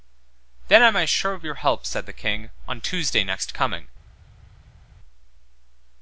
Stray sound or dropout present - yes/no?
no